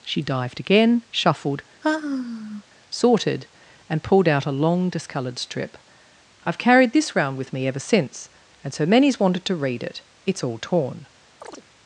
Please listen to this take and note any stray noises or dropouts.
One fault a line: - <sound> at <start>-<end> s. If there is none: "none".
- sigh at 1.8-2.6 s
- chirp at 11.4-11.6 s